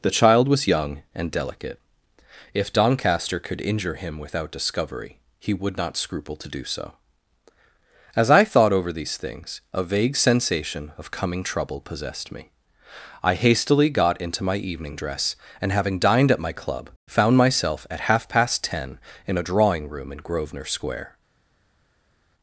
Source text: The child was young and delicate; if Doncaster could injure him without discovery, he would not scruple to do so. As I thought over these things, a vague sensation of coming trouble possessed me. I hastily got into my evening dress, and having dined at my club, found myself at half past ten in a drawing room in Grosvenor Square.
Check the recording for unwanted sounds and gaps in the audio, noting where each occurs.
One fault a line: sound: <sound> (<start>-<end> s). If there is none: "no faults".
no faults